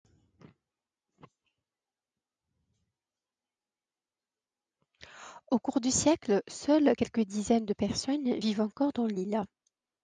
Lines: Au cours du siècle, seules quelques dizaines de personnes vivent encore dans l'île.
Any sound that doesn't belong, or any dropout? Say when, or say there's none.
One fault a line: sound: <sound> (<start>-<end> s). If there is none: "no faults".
no faults